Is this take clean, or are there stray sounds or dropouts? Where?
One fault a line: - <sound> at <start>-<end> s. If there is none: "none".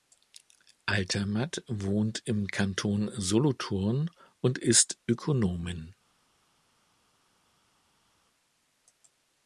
none